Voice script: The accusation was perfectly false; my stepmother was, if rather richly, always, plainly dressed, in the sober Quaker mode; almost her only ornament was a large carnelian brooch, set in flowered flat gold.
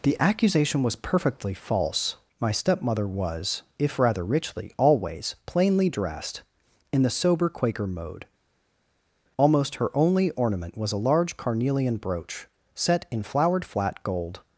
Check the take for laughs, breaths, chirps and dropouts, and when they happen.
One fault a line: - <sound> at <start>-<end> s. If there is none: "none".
none